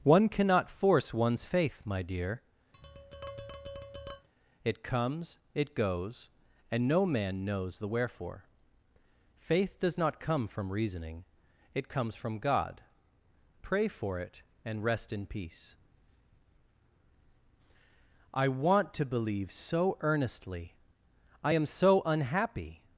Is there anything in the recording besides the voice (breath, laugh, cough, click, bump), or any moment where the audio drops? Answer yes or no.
yes